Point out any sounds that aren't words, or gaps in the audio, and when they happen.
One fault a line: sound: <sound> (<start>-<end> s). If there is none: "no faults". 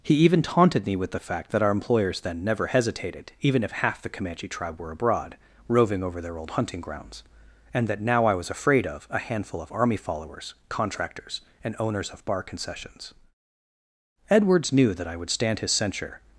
no faults